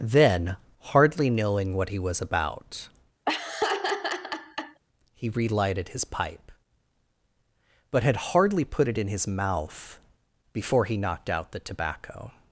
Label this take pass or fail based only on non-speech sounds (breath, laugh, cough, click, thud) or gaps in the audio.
fail